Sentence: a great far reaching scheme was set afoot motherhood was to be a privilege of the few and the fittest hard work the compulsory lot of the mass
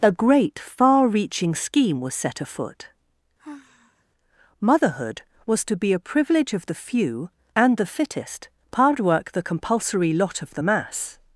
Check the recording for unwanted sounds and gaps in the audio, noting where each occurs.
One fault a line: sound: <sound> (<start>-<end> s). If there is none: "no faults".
sound: sigh (3.4-4.0 s)